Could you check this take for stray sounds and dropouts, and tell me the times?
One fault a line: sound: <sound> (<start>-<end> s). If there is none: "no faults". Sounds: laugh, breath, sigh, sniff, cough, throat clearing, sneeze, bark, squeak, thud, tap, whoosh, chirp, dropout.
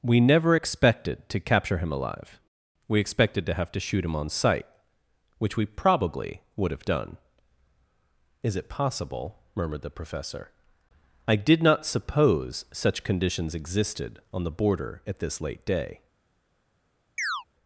sound: chirp (17.2-17.4 s)